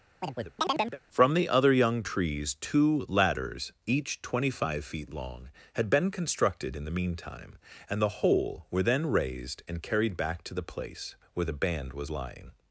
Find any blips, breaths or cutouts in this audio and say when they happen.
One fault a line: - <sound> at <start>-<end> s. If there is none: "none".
- chirp at 0.2-1.0 s